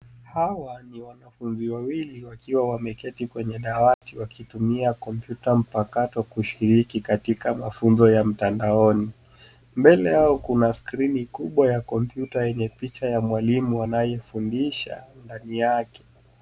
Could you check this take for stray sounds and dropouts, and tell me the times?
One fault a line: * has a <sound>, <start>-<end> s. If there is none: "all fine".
* has a dropout, 3.9-4.0 s